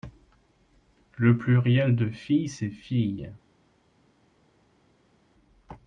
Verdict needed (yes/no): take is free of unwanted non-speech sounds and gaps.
yes